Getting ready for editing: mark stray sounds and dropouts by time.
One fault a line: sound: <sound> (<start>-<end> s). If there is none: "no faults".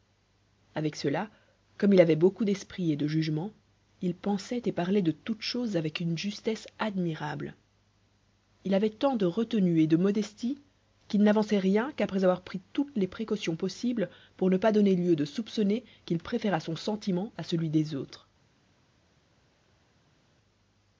no faults